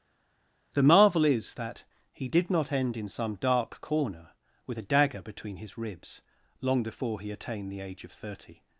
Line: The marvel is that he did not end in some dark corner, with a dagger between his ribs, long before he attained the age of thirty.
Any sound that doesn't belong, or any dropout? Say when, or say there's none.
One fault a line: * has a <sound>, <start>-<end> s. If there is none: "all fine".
all fine